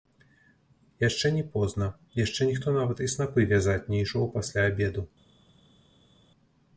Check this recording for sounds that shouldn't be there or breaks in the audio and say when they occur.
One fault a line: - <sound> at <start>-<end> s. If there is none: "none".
none